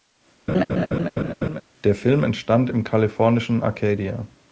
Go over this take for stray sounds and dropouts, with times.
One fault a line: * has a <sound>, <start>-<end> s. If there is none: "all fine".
* has a laugh, 0.5-1.6 s